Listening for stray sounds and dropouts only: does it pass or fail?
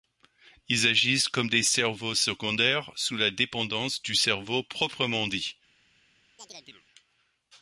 fail